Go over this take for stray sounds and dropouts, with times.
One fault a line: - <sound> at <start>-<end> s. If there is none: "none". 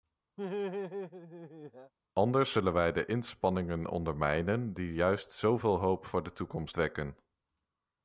- laugh at 0.4-1.9 s